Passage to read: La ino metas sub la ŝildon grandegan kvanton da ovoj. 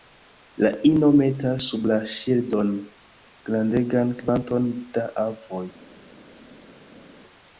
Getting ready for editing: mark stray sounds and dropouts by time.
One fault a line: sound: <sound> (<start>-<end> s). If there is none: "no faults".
no faults